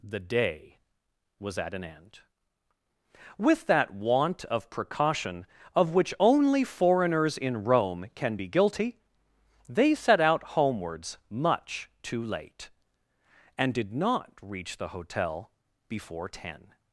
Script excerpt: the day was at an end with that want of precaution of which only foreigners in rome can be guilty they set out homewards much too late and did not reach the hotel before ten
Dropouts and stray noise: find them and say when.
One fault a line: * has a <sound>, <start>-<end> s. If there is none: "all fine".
all fine